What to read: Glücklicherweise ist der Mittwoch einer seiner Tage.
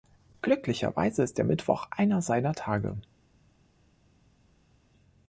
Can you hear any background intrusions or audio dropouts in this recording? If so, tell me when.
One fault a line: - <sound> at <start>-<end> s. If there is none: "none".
none